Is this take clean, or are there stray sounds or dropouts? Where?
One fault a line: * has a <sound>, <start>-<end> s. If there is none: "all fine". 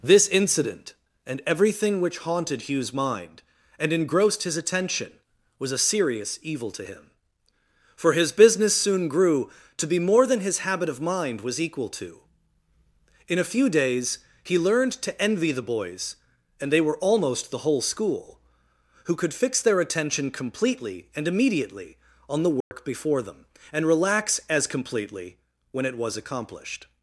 * has a dropout, 22.6-22.7 s